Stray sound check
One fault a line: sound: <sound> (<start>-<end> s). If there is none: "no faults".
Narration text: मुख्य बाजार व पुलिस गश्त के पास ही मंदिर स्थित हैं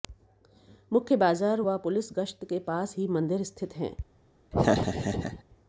sound: laugh (4.5-5.4 s)